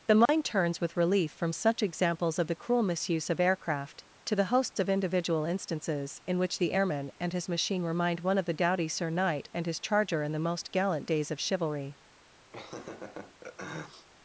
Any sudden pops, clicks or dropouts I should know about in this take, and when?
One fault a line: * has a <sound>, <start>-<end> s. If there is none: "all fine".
* has a dropout, 0.3-0.3 s
* has a laugh, 12.5-14.1 s